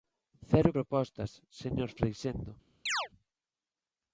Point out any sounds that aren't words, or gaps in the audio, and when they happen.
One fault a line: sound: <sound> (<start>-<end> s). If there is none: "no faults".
sound: chirp (2.9-3.1 s)